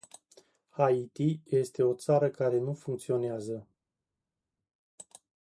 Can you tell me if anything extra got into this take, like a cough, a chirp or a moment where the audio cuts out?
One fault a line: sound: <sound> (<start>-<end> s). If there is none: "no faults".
no faults